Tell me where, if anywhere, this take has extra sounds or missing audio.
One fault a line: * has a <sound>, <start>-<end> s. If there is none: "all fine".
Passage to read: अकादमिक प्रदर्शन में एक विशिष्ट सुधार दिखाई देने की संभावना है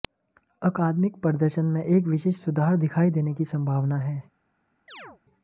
* has a chirp, 4.9-5.2 s